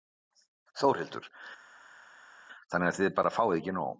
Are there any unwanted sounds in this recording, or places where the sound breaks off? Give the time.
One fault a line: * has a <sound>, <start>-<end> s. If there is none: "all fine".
all fine